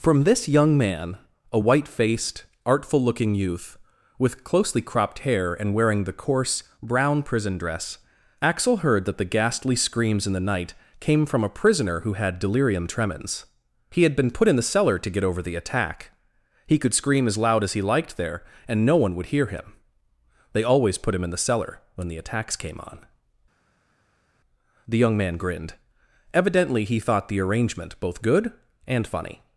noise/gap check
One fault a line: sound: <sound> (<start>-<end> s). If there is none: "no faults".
no faults